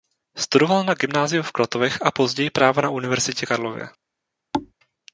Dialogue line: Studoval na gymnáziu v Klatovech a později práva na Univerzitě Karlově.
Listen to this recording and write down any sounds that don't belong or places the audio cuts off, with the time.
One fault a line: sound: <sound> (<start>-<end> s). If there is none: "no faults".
sound: thud (4.5-4.7 s)